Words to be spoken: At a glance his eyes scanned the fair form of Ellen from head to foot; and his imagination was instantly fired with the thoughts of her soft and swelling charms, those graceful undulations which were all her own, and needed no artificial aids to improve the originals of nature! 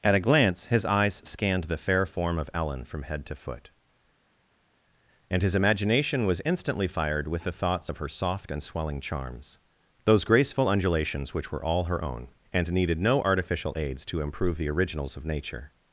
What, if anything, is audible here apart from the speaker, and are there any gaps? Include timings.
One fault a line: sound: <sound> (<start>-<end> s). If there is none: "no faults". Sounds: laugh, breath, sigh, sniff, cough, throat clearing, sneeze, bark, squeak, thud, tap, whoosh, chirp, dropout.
no faults